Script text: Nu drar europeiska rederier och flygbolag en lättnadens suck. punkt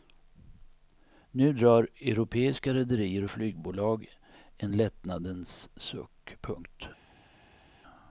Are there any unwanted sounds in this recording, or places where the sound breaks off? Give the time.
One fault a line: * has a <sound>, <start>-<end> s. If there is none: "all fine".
all fine